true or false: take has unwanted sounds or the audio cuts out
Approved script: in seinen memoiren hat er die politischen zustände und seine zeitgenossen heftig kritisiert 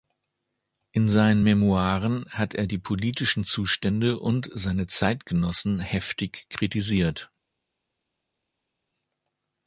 false